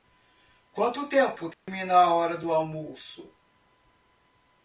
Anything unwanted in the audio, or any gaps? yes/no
yes